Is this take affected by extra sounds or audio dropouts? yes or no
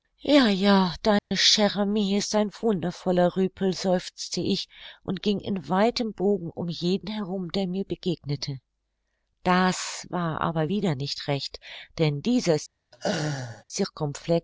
yes